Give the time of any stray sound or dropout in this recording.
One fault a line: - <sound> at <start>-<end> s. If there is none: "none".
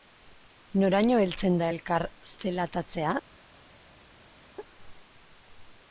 none